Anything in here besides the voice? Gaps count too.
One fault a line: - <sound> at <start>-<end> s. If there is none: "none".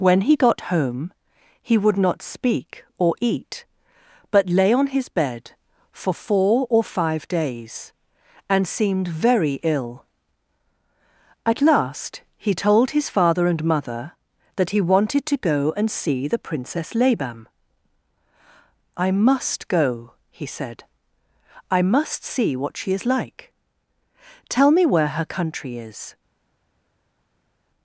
none